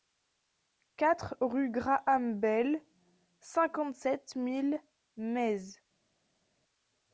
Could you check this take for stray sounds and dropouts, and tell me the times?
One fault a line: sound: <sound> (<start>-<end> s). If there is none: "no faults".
no faults